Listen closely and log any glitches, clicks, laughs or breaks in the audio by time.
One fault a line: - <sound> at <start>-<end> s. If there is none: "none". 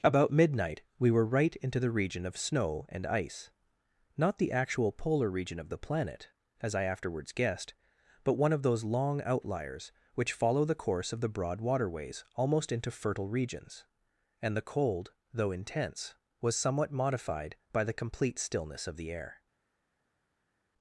none